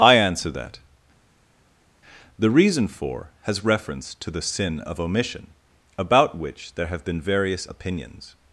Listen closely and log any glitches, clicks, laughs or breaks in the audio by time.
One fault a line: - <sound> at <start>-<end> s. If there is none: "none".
none